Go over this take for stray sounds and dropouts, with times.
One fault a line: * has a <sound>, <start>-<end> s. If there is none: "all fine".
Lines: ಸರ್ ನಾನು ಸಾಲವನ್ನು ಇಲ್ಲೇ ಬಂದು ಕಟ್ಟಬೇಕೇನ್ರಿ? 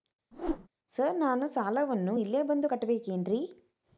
* has a whoosh, 0.3-0.7 s